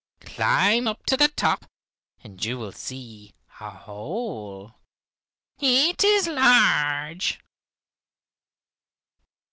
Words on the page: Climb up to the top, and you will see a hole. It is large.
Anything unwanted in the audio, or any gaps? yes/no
no